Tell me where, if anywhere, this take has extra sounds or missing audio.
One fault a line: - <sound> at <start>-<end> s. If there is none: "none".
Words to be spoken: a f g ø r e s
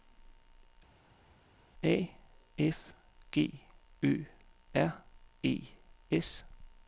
none